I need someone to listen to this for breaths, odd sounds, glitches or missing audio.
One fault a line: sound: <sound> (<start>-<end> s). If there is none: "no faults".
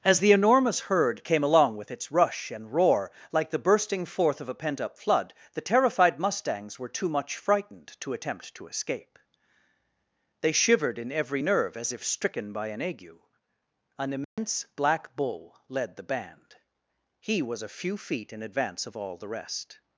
sound: dropout (14.2-14.4 s)